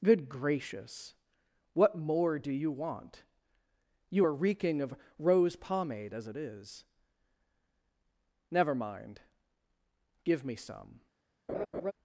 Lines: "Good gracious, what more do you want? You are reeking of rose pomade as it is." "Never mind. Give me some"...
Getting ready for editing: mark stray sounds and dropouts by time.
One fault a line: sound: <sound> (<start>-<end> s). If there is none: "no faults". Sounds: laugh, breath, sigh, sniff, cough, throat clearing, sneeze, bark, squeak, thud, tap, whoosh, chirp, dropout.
sound: laugh (11.5-11.9 s)